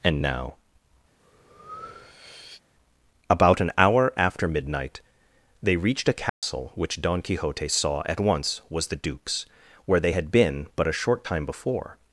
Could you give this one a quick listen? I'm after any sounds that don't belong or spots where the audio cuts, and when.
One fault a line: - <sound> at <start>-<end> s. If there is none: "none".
- breath at 1.2-2.6 s
- dropout at 6.3-6.4 s